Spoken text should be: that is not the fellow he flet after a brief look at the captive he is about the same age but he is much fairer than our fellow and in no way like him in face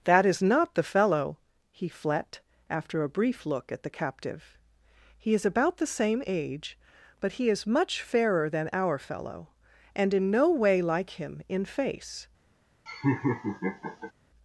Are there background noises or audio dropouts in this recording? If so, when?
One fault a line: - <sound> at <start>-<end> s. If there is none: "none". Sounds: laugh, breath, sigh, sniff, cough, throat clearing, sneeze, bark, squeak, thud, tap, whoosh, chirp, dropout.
- laugh at 12.9-14.1 s